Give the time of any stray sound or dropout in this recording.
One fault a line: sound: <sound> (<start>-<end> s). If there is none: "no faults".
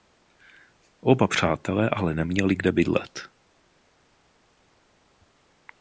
no faults